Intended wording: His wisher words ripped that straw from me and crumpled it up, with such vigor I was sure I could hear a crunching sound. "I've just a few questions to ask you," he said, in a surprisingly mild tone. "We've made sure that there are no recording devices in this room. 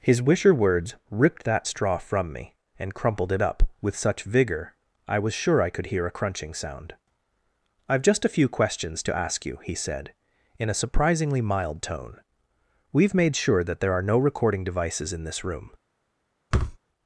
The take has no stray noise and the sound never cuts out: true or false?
false